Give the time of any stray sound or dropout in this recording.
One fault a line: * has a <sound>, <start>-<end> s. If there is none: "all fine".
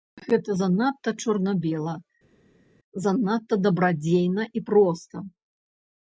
all fine